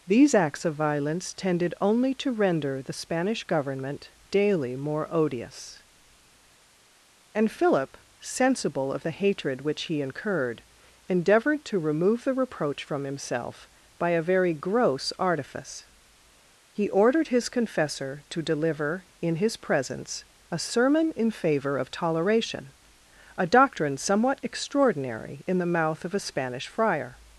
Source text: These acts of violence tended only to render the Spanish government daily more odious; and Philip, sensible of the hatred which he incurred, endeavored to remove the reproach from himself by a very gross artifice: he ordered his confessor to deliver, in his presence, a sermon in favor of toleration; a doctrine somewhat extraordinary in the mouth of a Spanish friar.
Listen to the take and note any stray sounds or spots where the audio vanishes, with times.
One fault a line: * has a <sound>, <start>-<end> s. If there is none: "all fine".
all fine